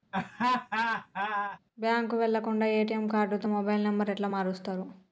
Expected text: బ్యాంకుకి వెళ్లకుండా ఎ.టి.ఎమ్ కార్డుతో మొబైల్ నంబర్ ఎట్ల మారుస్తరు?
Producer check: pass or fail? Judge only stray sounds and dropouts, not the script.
fail